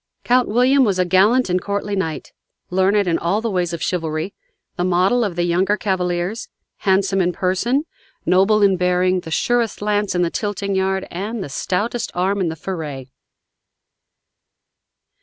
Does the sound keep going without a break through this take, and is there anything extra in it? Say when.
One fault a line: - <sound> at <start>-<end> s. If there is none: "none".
none